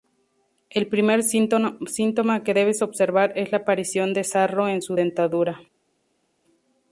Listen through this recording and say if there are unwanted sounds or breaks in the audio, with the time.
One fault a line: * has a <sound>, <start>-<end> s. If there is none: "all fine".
all fine